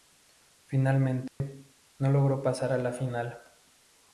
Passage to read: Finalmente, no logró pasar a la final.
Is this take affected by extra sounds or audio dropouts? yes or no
yes